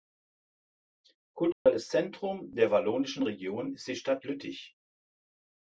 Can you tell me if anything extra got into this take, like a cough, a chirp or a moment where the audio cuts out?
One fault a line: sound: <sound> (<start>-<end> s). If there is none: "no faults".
sound: dropout (1.5-1.7 s)